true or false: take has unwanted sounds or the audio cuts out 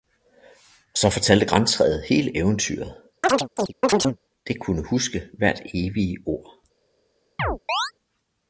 true